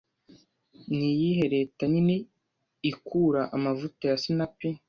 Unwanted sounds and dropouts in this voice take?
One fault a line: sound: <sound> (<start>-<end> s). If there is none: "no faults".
no faults